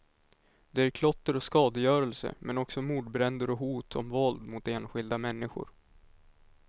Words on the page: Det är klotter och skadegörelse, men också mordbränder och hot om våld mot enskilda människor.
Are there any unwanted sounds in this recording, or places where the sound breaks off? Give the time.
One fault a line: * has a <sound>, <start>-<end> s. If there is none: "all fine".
all fine